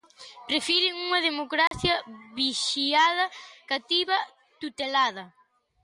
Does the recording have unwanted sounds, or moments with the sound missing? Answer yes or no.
yes